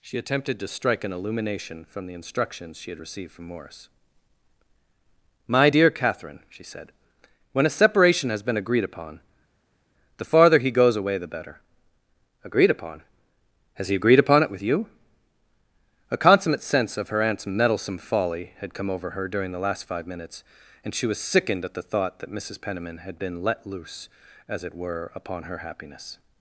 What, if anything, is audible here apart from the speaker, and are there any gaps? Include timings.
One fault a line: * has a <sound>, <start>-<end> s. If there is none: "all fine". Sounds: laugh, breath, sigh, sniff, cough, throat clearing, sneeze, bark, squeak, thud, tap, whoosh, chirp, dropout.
all fine